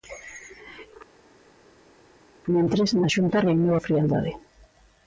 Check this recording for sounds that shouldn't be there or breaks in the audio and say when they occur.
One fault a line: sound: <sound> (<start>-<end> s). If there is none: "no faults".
no faults